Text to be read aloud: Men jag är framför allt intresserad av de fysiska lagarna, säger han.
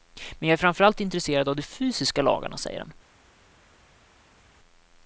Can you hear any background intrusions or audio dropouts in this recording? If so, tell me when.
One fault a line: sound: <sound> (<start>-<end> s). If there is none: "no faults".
no faults